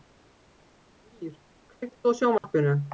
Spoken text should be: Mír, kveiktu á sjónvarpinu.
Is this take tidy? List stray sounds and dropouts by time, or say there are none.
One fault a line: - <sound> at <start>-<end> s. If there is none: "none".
- dropout at 2.4-2.4 s